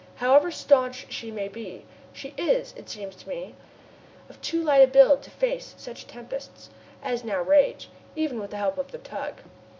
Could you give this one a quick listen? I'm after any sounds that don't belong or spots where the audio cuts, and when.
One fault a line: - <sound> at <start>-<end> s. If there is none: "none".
none